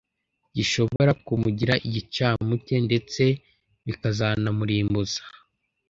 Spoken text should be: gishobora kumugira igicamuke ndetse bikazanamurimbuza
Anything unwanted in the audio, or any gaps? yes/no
yes